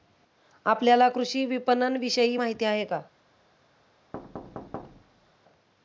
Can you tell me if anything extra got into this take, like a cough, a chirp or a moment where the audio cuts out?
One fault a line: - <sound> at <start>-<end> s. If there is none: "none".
- thud at 4.1-5.4 s